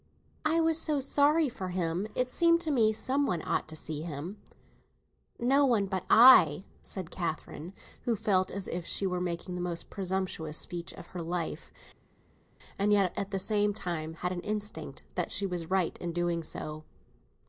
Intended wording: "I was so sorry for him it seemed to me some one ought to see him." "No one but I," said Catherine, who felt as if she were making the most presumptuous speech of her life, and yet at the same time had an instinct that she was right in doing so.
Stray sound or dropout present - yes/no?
no